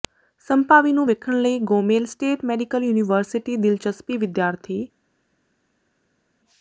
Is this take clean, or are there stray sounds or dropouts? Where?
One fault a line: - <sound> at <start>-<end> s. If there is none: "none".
none